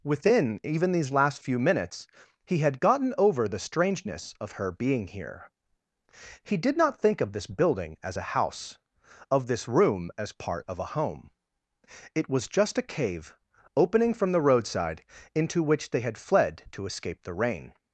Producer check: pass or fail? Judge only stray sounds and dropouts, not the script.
pass